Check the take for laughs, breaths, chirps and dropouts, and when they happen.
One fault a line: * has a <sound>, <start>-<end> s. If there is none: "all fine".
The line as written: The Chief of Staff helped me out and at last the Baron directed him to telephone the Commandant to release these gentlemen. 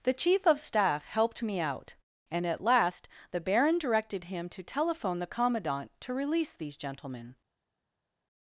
all fine